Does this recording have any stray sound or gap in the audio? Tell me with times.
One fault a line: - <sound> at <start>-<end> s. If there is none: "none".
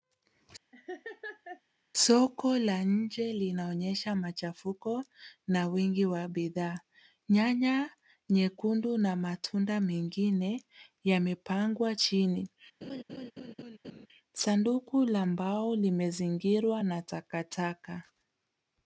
- laugh at 0.7-1.6 s
- laugh at 12.8-14.1 s